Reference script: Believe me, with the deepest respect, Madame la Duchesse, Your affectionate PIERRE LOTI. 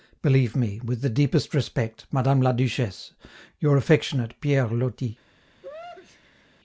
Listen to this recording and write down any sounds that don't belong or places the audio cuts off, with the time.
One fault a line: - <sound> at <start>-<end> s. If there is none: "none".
- sneeze at 5.6-6.5 s